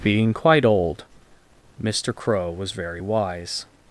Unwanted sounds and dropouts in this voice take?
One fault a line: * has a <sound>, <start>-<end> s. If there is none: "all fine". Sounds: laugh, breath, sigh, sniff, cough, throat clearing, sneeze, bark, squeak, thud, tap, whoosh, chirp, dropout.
all fine